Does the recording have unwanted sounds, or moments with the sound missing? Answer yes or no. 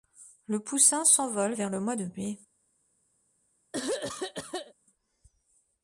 yes